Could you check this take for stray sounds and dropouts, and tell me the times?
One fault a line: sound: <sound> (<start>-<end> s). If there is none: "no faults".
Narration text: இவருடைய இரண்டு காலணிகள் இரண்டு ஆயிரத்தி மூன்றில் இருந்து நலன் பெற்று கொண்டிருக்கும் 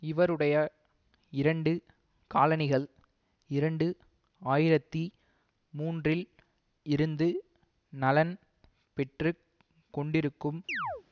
sound: chirp (10.7-11.0 s)